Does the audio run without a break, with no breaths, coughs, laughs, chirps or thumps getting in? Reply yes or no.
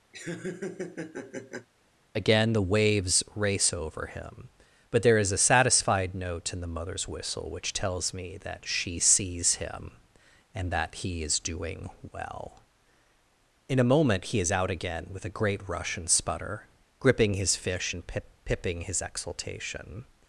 no